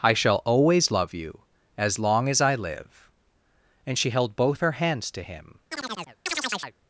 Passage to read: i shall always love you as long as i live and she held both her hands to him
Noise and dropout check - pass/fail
fail